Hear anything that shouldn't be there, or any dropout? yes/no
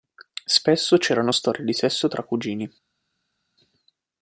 no